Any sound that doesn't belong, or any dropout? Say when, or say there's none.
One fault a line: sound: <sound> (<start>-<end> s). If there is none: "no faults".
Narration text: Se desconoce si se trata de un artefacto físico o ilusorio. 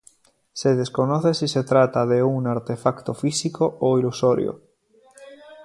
no faults